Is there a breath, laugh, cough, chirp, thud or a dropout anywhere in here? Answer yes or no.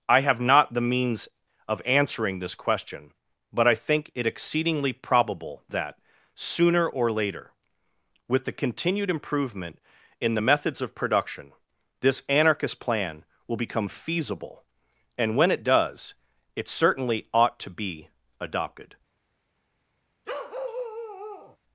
yes